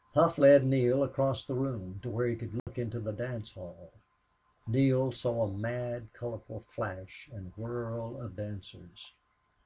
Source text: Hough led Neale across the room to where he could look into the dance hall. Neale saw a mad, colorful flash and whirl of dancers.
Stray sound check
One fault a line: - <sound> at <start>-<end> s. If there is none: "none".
- dropout at 2.6-2.7 s